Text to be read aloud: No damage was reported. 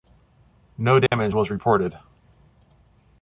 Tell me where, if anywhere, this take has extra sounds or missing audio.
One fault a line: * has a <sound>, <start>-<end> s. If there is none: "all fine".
* has a dropout, 1.1-1.1 s